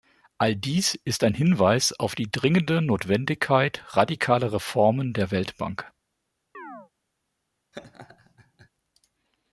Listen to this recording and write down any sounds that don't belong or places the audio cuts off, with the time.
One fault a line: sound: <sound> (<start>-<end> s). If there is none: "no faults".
sound: chirp (6.5-6.9 s)
sound: laugh (7.7-8.7 s)